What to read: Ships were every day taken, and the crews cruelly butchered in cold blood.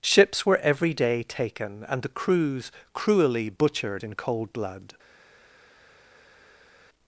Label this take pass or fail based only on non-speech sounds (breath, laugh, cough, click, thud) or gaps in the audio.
pass